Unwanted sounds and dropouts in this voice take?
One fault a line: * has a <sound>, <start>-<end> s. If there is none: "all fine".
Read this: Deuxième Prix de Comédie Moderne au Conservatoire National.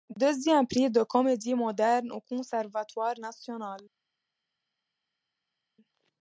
all fine